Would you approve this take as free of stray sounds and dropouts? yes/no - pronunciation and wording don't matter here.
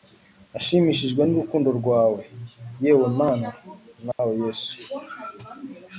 no